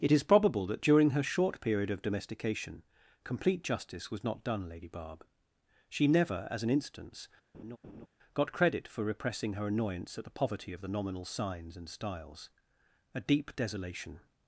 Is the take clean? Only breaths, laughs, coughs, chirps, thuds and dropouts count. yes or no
no